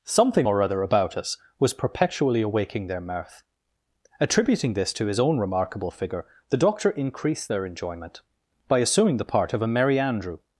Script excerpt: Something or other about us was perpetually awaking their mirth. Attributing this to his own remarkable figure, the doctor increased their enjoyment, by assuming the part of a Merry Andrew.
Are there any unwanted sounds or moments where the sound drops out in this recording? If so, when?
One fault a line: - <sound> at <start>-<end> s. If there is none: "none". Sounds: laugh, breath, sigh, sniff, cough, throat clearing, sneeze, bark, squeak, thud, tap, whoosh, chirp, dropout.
none